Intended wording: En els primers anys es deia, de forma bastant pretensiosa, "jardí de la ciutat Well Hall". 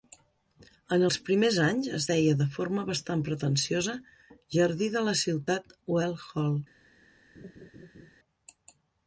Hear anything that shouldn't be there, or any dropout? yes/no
yes